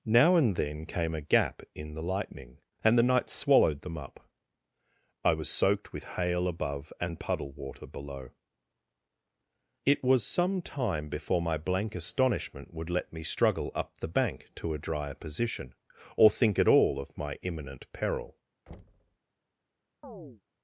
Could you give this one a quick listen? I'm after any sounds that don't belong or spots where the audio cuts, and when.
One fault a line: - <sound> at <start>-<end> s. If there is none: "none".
- thud at 18.7-19.2 s
- chirp at 20.0-20.4 s